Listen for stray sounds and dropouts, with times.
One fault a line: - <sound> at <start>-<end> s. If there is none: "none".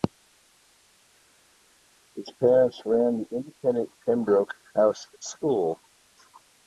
none